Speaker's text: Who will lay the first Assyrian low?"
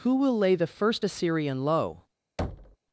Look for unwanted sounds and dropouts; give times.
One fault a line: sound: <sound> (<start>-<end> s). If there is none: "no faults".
sound: thud (2.4-2.8 s)